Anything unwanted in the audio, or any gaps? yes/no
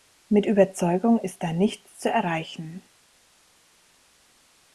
no